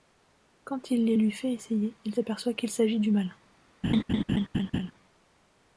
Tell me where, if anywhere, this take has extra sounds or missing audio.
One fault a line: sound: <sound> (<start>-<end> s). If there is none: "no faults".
sound: laugh (3.8-4.9 s)